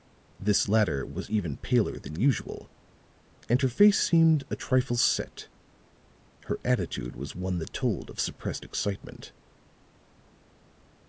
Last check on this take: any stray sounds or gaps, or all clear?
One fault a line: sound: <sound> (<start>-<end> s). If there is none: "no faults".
no faults